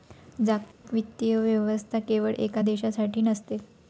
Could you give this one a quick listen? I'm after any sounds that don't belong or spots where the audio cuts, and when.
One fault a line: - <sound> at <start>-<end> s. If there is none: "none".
- dropout at 0.7-0.8 s